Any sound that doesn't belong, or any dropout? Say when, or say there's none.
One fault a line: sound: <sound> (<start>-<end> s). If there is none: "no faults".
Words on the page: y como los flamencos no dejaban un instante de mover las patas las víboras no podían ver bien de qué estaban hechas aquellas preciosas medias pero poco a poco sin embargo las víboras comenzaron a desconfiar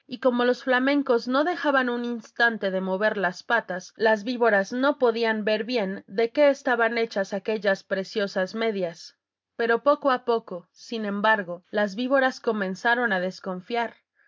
no faults